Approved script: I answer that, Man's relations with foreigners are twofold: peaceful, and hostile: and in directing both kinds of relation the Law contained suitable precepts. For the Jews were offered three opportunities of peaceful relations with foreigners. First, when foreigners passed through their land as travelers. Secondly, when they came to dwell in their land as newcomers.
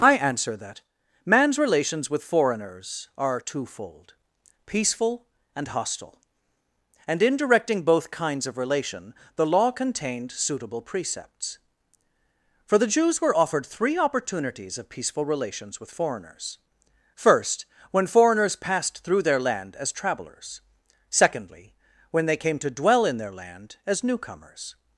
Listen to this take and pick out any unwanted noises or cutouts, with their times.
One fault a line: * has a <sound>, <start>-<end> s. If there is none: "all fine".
all fine